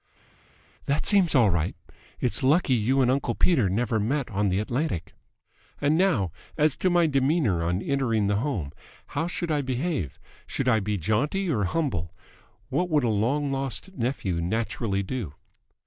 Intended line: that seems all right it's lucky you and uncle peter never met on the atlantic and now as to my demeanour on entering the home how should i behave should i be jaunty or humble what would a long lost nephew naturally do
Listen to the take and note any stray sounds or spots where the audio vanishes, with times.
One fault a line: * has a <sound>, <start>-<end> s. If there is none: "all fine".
all fine